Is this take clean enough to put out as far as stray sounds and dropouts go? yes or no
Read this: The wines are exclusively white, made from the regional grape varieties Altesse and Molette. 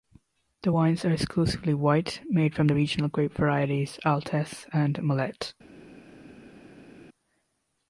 yes